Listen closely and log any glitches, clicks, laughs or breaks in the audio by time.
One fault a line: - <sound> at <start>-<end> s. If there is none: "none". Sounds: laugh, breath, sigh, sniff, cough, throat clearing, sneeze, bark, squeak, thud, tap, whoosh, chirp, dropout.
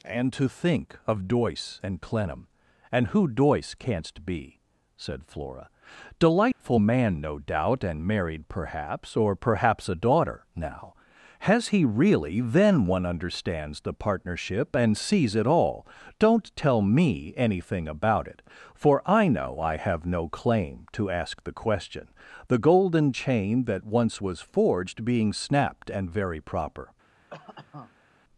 - dropout at 6.5-6.6 s
- cough at 27.3-28.1 s